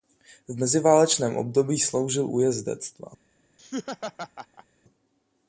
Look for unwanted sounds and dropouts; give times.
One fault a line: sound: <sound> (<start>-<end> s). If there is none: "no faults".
sound: laugh (3.6-4.7 s)